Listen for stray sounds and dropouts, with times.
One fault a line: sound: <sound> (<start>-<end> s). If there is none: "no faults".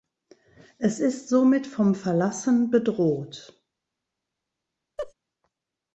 sound: laugh (5.0-5.1 s)